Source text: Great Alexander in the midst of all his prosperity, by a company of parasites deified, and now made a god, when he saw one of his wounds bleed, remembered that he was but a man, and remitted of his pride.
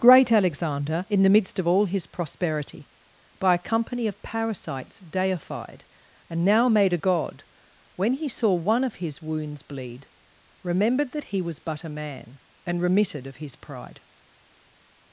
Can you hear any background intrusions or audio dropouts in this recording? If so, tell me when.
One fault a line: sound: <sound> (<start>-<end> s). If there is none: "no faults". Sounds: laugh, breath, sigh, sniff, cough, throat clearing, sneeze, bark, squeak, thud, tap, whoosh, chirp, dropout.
no faults